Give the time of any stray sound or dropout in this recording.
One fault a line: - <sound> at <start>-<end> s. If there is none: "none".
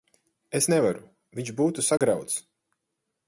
- dropout at 2.0-2.0 s